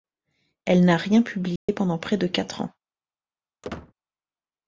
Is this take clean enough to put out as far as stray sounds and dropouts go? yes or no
no